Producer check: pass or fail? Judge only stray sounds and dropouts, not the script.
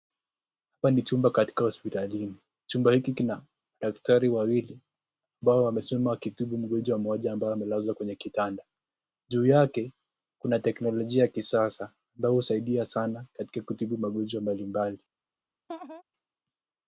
fail